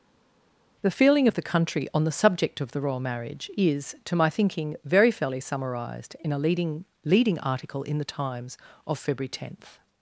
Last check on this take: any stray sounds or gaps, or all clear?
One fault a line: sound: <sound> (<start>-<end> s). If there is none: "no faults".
no faults